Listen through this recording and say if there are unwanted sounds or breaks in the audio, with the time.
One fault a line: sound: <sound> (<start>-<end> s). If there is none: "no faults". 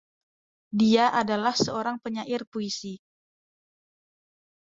no faults